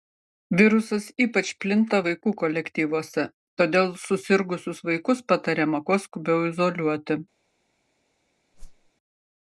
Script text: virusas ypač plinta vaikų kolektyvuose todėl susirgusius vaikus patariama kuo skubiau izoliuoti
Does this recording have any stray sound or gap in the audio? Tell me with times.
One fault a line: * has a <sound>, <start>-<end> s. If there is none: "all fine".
* has a whoosh, 8.5-8.9 s